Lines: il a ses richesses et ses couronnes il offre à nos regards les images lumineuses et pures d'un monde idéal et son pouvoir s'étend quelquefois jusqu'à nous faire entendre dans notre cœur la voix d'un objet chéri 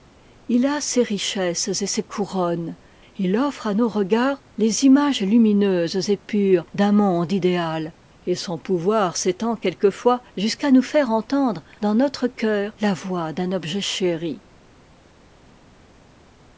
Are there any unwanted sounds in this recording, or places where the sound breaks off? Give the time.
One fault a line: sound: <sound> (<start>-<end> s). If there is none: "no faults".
no faults